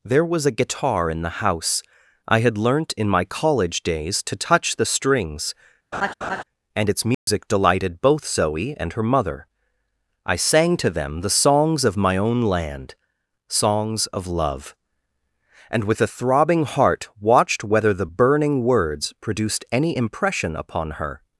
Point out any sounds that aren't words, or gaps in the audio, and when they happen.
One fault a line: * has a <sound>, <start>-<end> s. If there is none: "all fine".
* has a laugh, 5.9-6.4 s
* has a dropout, 7.1-7.3 s